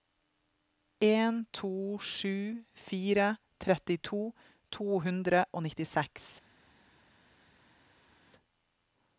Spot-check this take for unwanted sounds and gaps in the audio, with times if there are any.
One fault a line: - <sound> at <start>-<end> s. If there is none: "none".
none